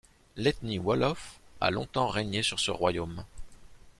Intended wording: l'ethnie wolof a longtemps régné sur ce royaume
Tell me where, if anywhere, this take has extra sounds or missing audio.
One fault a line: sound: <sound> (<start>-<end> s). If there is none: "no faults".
no faults